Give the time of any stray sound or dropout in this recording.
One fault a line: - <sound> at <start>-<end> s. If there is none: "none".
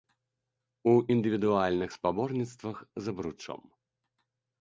none